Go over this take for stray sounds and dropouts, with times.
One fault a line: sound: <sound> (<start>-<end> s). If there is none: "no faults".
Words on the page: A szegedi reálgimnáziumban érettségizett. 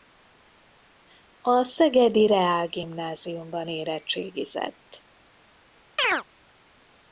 sound: chirp (6.0-6.2 s)